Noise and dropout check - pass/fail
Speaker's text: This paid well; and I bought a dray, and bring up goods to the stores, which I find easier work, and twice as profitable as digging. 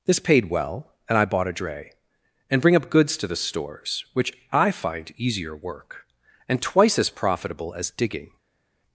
pass